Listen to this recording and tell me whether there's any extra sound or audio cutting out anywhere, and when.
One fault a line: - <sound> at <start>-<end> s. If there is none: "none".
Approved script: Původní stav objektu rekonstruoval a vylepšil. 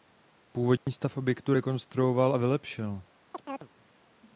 - dropout at 0.8-0.9 s
- chirp at 3.3-3.7 s